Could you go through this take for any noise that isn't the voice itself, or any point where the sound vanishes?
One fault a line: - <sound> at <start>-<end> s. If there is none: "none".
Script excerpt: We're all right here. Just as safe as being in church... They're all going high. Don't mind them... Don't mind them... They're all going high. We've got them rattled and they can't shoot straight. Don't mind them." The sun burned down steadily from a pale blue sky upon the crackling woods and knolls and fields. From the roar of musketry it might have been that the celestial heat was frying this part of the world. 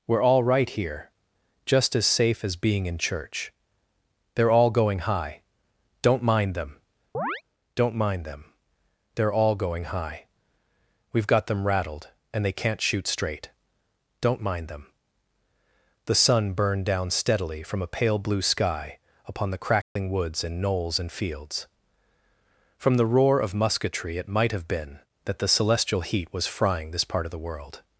- chirp at 7.1-7.4 s
- dropout at 19.8-20.0 s